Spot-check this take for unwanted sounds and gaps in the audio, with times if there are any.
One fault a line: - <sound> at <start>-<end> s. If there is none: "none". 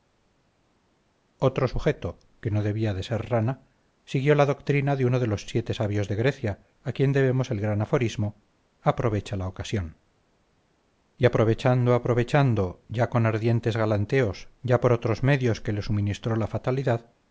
none